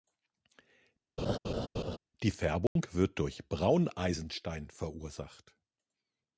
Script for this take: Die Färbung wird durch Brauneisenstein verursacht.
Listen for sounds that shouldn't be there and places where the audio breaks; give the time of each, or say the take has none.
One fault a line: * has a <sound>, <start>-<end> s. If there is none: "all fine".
* has a laugh, 1.2-2.0 s
* has a dropout, 2.7-2.8 s